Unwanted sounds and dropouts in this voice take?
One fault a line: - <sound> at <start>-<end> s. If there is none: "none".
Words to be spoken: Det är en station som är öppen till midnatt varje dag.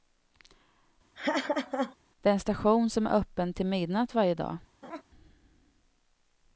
- laugh at 1.1-2.0 s
- laugh at 4.8-5.0 s